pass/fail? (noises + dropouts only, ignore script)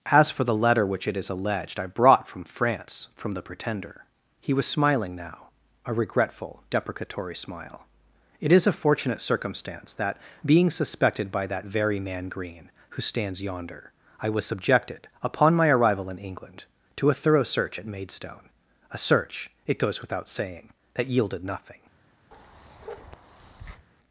fail